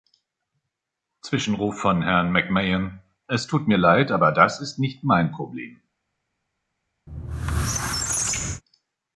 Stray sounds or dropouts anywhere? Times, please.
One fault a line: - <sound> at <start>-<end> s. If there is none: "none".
- squeak at 7.1-8.6 s